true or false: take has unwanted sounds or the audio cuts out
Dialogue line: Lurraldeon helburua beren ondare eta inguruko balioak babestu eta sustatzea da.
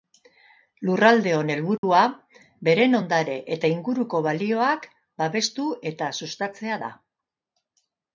true